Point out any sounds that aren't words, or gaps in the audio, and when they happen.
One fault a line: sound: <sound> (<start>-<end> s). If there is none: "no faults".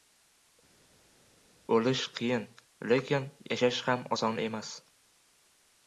no faults